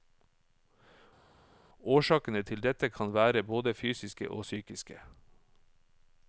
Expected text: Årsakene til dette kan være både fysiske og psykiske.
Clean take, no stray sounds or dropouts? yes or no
yes